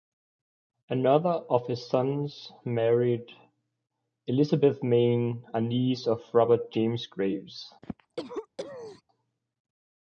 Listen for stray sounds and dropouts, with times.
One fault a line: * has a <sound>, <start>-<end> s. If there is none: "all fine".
* has a cough, 7.8-9.0 s